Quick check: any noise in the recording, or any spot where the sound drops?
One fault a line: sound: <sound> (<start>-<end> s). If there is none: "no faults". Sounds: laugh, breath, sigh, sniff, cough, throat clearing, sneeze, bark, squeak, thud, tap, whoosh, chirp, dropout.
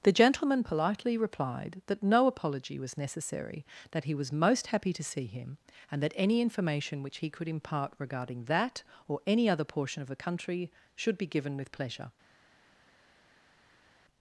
no faults